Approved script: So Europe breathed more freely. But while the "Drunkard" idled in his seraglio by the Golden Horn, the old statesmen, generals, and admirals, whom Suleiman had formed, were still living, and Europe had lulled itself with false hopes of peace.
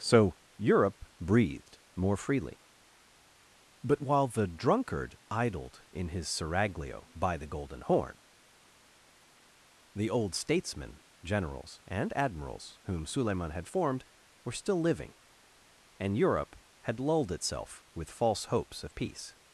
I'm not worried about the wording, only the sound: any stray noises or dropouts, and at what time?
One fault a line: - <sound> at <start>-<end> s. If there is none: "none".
none